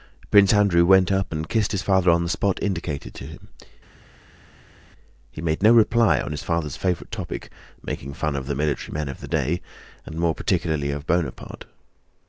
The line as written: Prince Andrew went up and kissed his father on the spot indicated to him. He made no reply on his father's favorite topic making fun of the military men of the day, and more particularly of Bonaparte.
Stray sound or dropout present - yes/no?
no